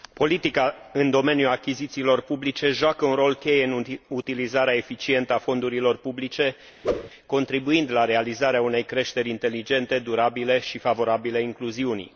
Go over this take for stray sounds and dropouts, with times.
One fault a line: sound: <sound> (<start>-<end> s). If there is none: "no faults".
sound: whoosh (6.8-7.1 s)